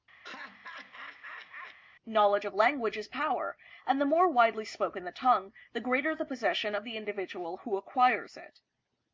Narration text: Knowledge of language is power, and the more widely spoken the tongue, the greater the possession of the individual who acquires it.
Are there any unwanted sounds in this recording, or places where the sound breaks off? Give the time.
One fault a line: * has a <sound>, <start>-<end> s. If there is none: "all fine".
* has a laugh, 0.2-1.8 s